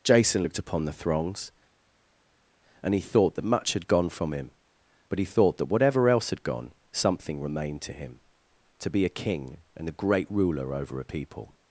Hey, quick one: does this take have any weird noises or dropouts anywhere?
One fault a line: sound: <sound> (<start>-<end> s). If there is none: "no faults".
no faults